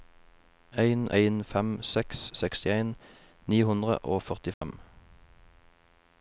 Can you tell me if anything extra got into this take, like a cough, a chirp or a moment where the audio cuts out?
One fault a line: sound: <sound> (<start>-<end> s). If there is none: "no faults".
sound: dropout (4.5-4.6 s)